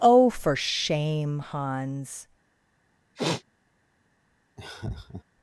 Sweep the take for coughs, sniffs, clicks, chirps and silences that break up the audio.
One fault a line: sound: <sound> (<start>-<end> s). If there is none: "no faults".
sound: sniff (3.1-3.4 s)
sound: laugh (4.6-5.2 s)